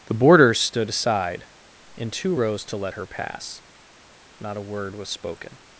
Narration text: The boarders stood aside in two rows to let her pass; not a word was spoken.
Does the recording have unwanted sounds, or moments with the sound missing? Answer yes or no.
no